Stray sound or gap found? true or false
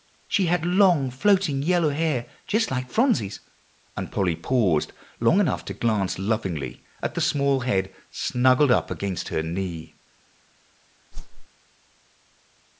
true